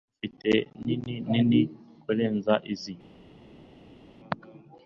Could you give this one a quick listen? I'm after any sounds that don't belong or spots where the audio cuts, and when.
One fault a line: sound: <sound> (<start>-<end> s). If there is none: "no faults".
no faults